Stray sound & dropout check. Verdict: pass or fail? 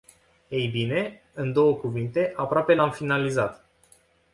pass